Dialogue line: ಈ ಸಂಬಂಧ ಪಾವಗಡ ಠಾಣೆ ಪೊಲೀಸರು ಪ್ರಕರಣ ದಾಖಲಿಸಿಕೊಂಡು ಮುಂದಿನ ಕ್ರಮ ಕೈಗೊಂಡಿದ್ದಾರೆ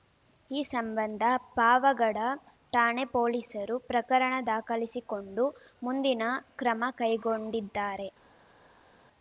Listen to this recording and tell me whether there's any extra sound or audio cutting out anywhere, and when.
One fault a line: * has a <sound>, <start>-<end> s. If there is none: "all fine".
all fine